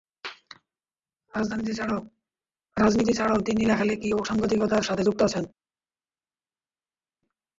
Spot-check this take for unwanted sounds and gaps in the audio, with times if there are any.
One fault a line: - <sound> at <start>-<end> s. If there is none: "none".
none